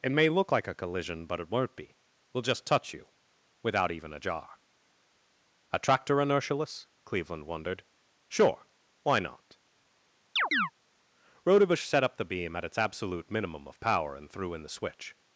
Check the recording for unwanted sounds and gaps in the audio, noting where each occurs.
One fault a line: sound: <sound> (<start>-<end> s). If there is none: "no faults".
sound: chirp (10.4-10.7 s)